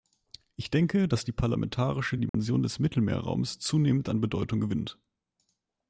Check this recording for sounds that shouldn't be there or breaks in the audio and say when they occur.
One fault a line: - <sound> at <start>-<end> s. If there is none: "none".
- dropout at 2.3-2.3 s